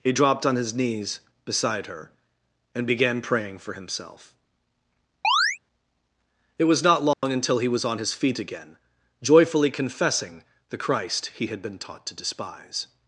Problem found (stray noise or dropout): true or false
true